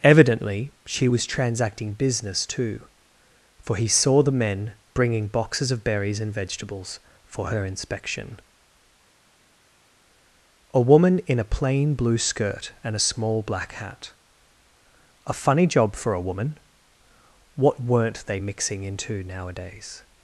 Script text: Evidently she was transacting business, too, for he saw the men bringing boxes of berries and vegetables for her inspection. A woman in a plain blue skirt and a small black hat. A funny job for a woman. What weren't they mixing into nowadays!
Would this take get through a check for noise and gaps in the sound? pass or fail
pass